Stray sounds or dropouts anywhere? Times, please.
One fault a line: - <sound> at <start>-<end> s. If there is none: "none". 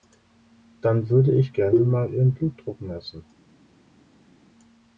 none